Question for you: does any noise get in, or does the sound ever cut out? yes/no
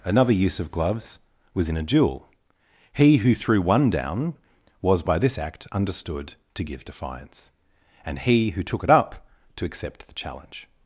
no